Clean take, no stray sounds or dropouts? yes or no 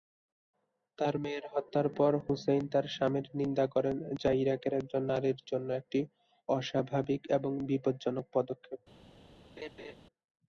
no